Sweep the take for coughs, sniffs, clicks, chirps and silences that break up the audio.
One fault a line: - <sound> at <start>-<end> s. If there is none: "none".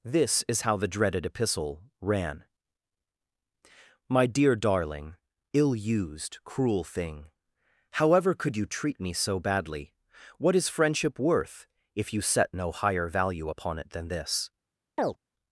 - chirp at 15.0-15.2 s